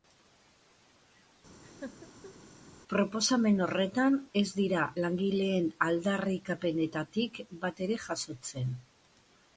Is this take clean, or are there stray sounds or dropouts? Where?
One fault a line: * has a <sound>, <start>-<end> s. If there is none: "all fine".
* has a laugh, 1.6-2.3 s